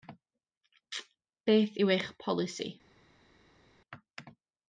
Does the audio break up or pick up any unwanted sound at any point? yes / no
no